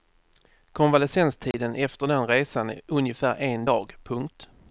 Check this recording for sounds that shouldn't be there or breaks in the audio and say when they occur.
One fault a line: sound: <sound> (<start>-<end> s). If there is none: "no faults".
sound: dropout (1.5-1.5 s)